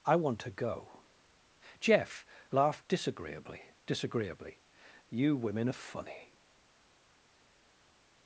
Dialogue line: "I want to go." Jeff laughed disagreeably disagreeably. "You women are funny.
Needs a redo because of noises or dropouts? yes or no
no